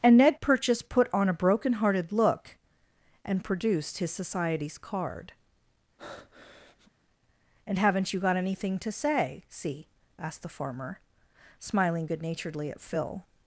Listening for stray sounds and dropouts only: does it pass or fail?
fail